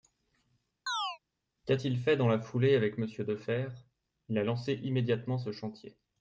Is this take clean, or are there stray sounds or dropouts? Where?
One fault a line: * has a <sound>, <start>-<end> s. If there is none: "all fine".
* has a chirp, 0.9-1.2 s